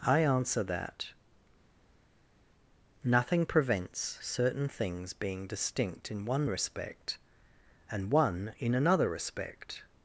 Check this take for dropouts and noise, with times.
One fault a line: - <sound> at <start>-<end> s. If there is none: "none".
none